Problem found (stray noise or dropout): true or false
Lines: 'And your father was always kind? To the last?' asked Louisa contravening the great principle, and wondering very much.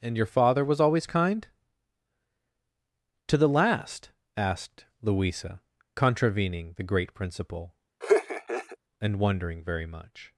true